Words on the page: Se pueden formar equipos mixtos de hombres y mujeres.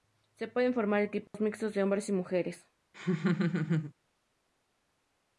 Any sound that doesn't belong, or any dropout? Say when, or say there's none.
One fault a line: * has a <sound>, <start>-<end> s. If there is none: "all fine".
* has a dropout, 1.3-1.3 s
* has a laugh, 2.9-3.9 s